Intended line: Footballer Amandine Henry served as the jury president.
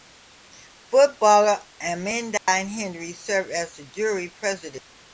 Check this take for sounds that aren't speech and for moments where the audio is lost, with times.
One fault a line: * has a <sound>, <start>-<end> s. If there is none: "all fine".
* has a dropout, 2.4-2.5 s